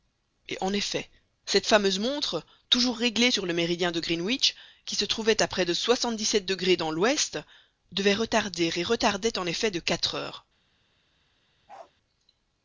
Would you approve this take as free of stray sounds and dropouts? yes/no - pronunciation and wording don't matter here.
no